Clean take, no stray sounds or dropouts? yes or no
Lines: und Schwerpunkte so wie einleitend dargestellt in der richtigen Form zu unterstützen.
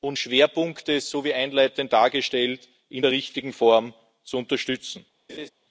no